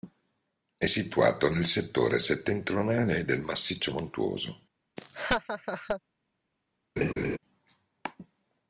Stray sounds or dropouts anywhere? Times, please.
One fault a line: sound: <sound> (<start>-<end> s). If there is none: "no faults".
sound: laugh (5.0-6.0 s)
sound: laugh (7.0-7.4 s)